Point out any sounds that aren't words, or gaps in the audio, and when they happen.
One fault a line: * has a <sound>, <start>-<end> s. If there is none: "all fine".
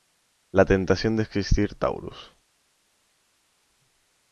all fine